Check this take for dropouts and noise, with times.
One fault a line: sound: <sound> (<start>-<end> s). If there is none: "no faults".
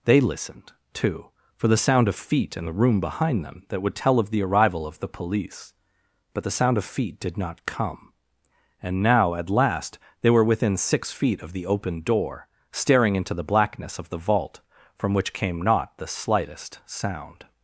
no faults